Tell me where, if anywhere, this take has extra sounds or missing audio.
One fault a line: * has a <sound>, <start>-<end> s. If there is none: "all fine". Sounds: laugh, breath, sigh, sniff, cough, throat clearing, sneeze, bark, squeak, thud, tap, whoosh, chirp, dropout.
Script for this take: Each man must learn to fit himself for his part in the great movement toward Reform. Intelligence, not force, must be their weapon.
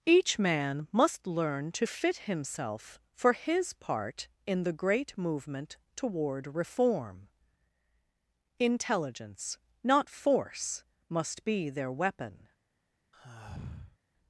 * has a sigh, 13.1-14.0 s